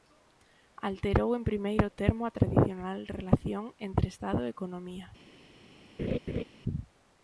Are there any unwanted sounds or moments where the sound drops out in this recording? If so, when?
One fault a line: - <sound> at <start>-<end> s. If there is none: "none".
- laugh at 6.0-6.4 s